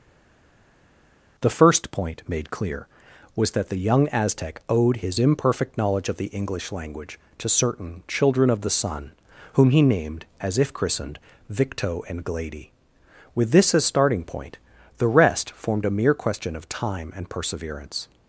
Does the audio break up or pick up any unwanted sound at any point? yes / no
no